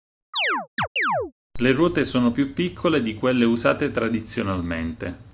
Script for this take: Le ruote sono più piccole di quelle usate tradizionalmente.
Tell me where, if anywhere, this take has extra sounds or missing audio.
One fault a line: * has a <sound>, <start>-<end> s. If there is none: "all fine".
* has a chirp, 0.3-1.3 s